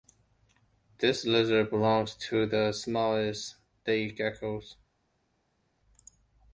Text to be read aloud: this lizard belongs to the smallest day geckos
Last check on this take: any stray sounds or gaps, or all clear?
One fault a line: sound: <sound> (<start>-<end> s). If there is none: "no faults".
no faults